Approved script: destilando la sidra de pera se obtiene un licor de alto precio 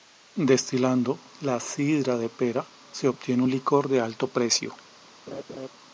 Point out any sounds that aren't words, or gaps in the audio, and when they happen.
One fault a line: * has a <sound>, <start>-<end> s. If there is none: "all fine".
* has a laugh, 5.3-5.7 s